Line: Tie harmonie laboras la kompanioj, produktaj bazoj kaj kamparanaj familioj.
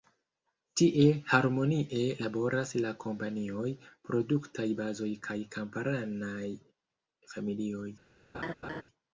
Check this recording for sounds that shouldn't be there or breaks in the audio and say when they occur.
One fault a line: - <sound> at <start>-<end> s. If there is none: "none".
- laugh at 8.3-8.8 s